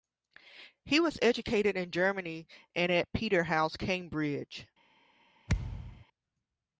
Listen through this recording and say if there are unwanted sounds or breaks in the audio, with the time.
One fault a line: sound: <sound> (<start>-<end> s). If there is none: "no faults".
sound: thud (5.5-6.1 s)